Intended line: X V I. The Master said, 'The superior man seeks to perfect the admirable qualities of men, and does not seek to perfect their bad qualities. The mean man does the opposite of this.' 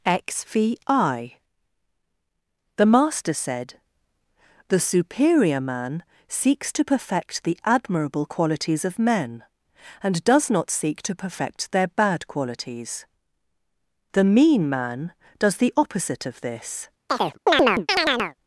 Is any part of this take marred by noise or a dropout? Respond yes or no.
yes